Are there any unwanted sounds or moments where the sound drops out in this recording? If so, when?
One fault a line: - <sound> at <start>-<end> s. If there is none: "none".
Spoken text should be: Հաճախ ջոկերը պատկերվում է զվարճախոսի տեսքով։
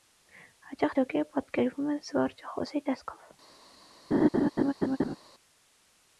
- laugh at 4.1-5.2 s